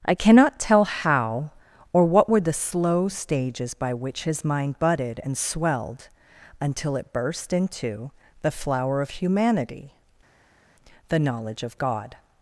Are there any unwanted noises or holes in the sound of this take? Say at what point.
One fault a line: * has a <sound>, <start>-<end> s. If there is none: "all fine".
all fine